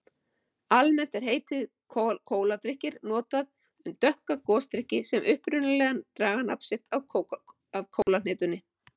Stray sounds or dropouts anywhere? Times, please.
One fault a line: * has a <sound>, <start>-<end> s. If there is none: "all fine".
* has a dropout, 8.0-8.1 s